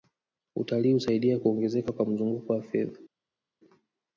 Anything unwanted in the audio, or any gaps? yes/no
no